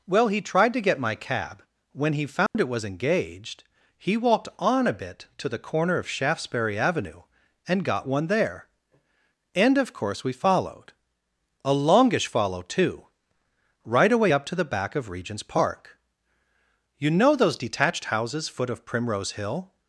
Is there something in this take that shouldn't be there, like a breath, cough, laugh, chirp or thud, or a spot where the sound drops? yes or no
yes